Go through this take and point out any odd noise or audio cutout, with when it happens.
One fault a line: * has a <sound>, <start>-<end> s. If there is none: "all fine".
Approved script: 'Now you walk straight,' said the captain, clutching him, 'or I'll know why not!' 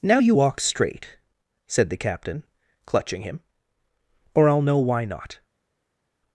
all fine